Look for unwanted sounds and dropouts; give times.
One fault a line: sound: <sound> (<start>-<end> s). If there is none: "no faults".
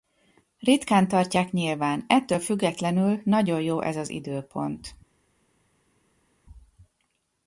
no faults